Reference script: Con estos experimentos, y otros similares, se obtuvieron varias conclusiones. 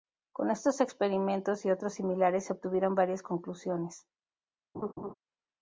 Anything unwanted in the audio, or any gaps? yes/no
yes